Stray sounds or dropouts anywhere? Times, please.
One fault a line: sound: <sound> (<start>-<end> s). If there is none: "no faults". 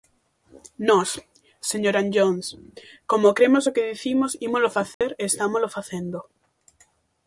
sound: dropout (4.9-5.0 s)